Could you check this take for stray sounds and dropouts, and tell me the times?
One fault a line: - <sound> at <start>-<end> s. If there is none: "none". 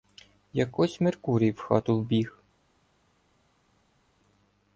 none